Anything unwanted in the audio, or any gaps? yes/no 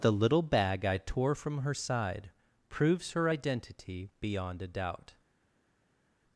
no